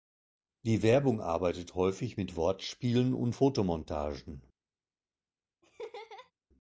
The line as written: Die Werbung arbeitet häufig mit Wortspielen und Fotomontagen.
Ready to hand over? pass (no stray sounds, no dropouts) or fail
fail